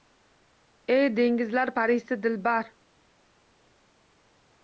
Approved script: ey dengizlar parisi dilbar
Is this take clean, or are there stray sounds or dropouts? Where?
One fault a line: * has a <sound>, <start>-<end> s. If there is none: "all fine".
all fine